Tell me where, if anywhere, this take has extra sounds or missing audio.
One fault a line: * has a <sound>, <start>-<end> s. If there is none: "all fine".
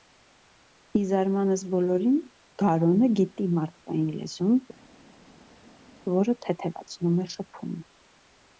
all fine